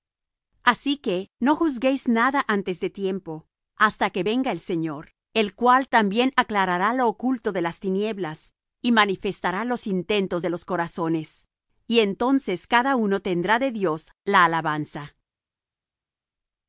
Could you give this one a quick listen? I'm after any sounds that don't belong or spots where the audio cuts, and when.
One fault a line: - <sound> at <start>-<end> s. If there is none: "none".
none